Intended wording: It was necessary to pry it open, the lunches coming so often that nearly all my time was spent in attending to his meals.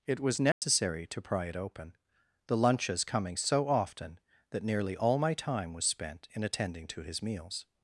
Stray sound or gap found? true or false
true